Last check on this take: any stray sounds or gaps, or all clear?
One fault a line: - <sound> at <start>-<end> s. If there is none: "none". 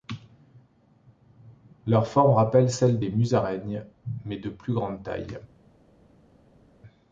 none